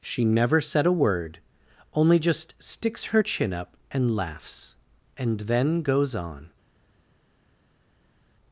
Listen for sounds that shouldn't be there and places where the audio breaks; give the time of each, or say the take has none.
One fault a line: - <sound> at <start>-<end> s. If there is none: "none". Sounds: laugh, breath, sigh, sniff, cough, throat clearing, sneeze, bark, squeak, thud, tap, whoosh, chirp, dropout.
none